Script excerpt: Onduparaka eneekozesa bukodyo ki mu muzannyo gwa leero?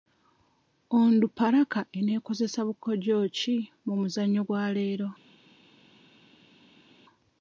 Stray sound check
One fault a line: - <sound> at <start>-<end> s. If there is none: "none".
none